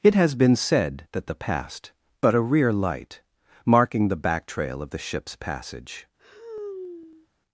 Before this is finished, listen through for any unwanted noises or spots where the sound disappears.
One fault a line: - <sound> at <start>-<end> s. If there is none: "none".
- sigh at 6.2-7.3 s